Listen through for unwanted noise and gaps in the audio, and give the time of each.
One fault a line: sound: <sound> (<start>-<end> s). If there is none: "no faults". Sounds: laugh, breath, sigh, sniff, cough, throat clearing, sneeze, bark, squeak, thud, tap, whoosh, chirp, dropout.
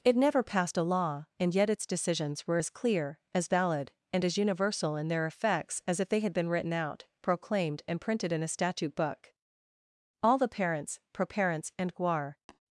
sound: tap (12.5-12.6 s)